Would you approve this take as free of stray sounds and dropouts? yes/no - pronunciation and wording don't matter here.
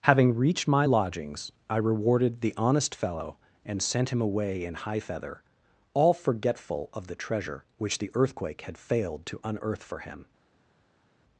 yes